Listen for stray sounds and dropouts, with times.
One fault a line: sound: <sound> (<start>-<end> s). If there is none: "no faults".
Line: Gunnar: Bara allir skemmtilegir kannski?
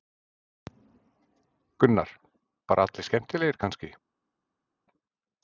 no faults